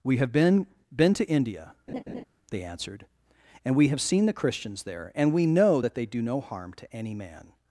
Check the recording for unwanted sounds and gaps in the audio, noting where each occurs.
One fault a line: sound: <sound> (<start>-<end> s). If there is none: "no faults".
sound: laugh (1.9-2.2 s)